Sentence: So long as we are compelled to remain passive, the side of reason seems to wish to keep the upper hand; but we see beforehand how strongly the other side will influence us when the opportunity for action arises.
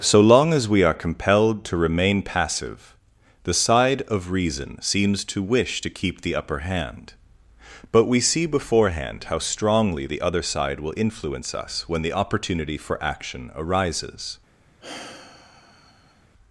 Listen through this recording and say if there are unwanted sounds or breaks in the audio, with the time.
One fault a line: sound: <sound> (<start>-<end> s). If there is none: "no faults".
sound: sigh (14.8-16.3 s)